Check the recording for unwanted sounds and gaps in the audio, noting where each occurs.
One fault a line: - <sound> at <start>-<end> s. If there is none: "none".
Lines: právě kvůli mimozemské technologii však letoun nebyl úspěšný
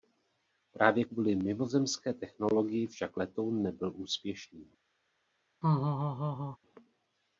- laugh at 5.6-6.6 s